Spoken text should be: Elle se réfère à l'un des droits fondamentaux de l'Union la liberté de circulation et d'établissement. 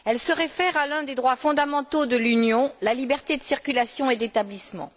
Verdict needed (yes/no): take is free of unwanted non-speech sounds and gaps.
yes